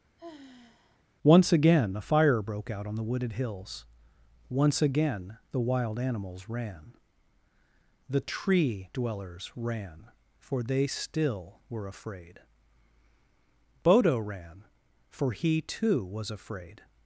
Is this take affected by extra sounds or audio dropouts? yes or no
yes